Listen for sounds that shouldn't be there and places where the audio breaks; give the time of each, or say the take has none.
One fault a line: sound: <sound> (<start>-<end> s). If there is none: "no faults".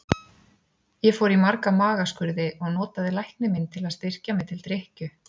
no faults